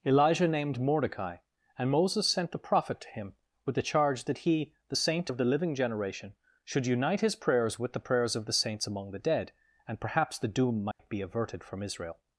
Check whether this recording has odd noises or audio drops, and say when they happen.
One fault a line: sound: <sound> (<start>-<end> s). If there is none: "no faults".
sound: dropout (10.9-11.0 s)